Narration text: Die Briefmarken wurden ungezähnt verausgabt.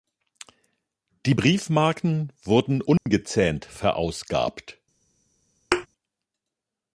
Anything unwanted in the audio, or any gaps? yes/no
yes